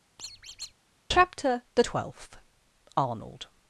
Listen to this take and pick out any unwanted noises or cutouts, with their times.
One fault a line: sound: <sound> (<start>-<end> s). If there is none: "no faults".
sound: squeak (0.2-0.7 s)